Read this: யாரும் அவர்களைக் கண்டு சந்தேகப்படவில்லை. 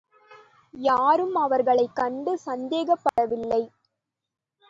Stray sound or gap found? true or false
true